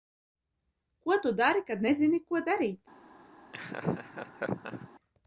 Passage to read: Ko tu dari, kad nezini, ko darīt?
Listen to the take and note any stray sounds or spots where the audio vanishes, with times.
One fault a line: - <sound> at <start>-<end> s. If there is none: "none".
- laugh at 3.5-4.9 s